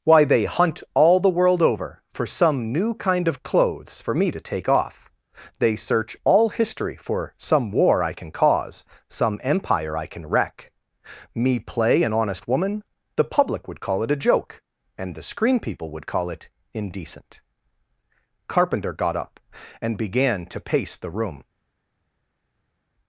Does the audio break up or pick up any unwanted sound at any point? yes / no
no